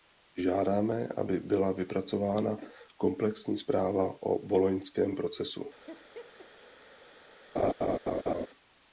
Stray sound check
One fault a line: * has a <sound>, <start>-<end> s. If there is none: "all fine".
* has a laugh, 5.9-6.5 s
* has a laugh, 7.6-8.5 s